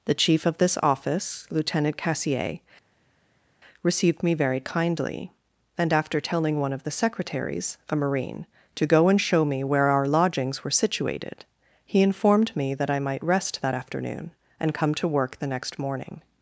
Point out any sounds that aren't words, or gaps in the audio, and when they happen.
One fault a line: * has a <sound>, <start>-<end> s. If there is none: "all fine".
all fine